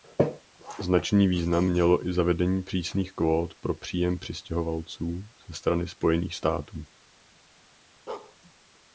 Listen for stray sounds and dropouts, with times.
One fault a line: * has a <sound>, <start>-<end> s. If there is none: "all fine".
* has a bark, 8.1-8.4 s